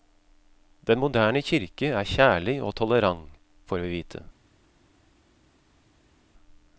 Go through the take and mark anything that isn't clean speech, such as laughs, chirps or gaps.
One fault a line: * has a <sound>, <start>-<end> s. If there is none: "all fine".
all fine